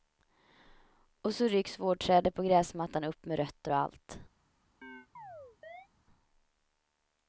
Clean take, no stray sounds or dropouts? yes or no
no